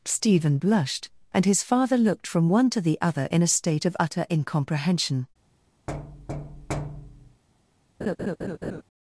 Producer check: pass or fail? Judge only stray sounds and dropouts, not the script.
fail